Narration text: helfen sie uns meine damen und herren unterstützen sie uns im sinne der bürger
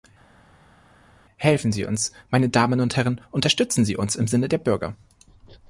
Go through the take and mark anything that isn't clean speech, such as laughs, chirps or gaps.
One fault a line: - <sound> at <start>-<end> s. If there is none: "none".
none